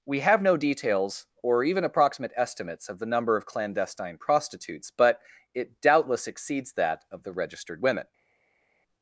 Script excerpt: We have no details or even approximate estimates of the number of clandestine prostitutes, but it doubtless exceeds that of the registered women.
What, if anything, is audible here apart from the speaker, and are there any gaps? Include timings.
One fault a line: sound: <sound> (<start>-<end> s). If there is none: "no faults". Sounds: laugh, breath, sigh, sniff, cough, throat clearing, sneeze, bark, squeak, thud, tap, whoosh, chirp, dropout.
no faults